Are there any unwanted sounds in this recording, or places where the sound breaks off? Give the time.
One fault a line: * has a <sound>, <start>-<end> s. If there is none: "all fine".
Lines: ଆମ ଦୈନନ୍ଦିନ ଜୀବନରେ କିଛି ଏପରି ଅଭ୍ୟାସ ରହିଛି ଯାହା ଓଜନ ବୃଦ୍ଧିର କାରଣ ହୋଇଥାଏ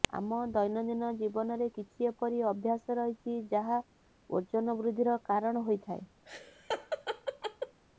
* has a laugh, 6.2-7.8 s